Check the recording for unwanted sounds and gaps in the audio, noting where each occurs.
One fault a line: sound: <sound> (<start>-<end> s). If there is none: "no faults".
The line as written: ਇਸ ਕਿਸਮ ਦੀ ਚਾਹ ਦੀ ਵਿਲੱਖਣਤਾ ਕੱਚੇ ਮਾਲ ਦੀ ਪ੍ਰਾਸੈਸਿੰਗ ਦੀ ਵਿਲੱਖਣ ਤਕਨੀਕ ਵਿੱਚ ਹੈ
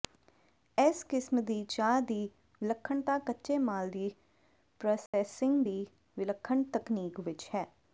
sound: dropout (5.1-5.1 s)